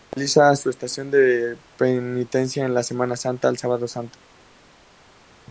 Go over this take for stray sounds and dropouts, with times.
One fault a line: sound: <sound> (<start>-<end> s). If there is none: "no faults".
no faults